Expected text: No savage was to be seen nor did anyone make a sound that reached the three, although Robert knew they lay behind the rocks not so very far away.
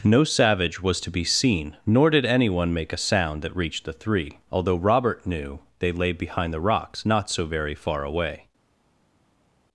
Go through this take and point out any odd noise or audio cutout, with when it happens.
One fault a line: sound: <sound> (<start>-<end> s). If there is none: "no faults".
no faults